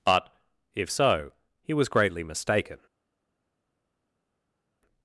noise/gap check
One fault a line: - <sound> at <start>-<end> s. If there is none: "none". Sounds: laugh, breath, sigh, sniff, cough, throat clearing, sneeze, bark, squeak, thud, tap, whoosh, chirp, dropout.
none